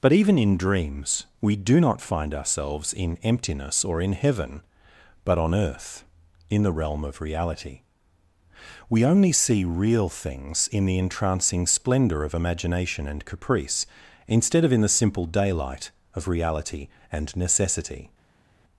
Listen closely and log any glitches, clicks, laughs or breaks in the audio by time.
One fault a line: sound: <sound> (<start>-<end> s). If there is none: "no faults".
no faults